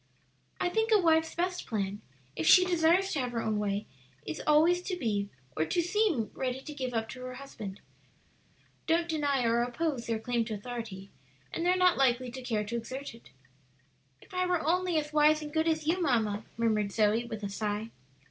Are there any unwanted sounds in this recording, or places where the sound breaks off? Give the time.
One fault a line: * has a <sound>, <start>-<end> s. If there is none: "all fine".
all fine